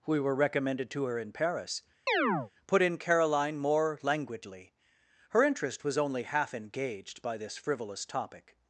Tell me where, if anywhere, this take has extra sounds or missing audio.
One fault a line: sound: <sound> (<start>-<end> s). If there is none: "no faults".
sound: chirp (2.1-2.5 s)